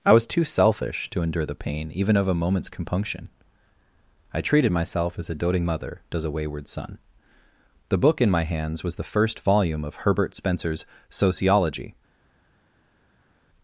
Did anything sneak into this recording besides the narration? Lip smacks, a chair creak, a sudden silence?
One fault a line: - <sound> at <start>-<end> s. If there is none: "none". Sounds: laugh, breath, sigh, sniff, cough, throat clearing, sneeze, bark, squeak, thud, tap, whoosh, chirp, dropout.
none